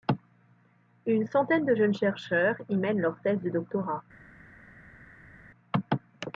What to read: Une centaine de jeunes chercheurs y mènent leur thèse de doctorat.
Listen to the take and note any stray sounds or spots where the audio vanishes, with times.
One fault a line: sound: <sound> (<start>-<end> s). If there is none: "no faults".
no faults